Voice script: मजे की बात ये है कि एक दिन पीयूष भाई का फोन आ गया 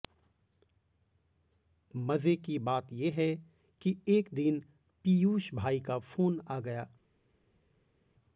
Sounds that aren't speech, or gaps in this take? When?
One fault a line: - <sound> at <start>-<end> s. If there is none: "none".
none